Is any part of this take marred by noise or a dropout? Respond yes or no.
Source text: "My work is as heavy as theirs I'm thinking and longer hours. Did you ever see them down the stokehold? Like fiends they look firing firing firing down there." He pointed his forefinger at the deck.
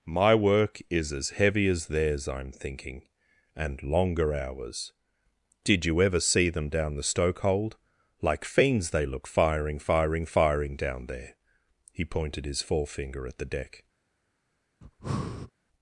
yes